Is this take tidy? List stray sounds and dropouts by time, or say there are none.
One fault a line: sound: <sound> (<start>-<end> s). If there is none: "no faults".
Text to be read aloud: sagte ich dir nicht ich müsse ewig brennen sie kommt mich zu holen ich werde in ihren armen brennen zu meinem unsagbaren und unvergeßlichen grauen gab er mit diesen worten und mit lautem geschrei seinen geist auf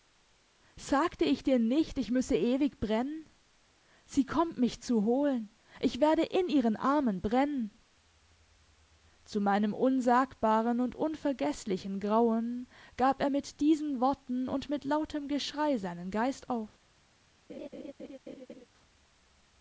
sound: laugh (17.5-18.7 s)